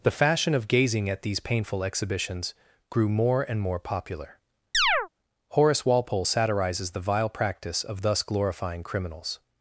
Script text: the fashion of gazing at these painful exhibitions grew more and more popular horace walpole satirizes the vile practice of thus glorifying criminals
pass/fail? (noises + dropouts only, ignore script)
fail